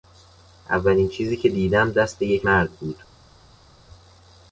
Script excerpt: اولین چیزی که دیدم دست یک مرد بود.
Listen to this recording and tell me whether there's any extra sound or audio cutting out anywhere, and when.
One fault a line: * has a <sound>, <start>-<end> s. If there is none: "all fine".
all fine